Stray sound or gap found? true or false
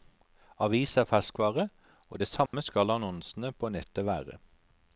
true